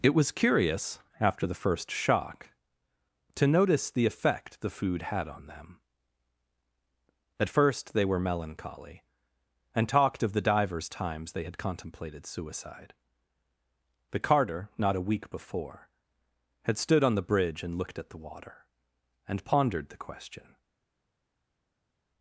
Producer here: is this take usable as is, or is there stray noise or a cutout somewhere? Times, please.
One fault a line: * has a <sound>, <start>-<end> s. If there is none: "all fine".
all fine